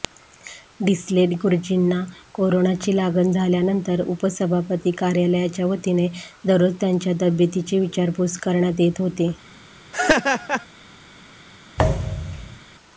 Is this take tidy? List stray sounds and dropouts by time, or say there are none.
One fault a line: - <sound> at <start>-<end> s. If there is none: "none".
- laugh at 9.9-10.7 s
- thud at 11.8-12.6 s